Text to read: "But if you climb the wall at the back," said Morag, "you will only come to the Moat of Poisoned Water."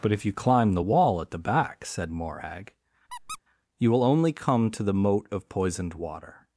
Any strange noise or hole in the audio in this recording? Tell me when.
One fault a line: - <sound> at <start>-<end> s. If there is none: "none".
- squeak at 3.1-3.4 s